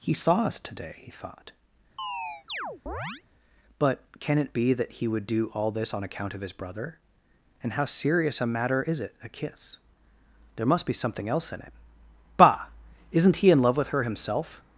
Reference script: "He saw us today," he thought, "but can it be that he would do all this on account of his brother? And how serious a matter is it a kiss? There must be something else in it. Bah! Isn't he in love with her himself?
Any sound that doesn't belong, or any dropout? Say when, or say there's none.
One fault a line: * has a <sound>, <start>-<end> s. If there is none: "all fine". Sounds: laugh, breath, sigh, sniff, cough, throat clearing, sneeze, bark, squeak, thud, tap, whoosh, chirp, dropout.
* has a chirp, 2.0-3.2 s